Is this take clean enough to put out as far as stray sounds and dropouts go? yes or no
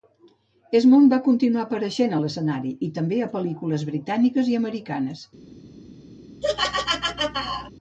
no